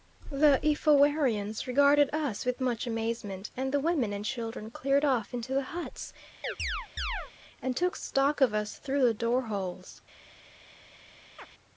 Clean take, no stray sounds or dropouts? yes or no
no